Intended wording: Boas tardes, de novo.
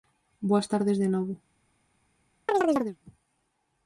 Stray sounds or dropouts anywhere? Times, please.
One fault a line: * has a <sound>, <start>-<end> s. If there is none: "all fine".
* has a chirp, 2.5-3.0 s